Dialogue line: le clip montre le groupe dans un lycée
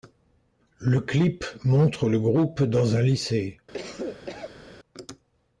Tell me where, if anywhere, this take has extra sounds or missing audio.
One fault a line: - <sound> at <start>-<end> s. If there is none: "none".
- cough at 3.7-4.6 s